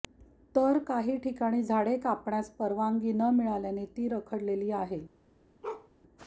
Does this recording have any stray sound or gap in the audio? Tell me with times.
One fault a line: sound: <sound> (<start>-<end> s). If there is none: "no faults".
sound: bark (5.6-5.9 s)